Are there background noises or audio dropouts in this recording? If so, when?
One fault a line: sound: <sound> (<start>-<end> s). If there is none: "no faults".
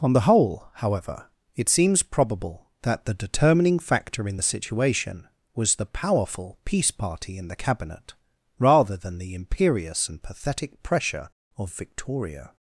no faults